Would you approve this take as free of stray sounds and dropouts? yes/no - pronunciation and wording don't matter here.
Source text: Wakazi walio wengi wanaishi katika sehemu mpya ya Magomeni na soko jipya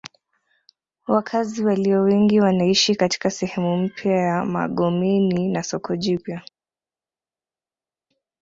yes